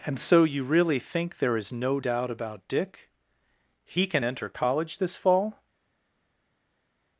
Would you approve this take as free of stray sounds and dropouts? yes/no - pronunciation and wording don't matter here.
yes